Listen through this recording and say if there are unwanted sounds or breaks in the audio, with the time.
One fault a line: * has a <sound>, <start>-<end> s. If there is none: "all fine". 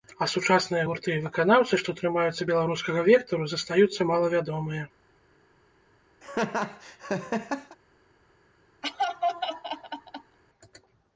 * has a laugh, 6.2-7.8 s
* has a laugh, 8.8-10.4 s